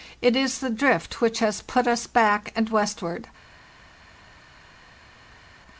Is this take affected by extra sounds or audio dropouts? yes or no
no